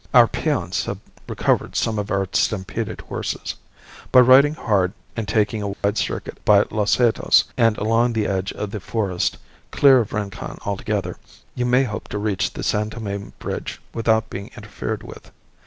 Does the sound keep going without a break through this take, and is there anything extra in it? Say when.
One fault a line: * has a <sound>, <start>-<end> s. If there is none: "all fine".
* has a dropout, 5.7-5.8 s